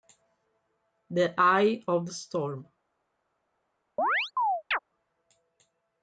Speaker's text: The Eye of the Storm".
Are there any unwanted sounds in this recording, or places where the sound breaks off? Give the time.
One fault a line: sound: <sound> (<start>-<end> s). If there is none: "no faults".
sound: chirp (4.0-4.8 s)